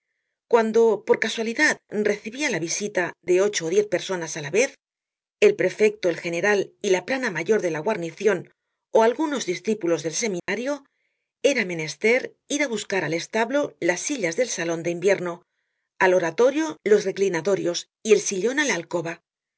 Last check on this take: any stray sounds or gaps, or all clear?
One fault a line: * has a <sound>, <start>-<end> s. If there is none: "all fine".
* has a dropout, 10.4-10.5 s